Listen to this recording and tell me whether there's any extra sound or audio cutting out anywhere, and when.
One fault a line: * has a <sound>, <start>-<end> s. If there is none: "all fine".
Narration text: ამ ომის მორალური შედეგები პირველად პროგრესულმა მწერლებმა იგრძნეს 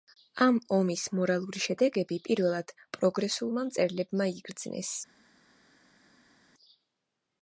all fine